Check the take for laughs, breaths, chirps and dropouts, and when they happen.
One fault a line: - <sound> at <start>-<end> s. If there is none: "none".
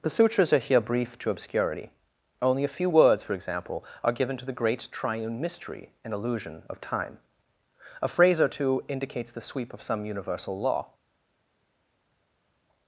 none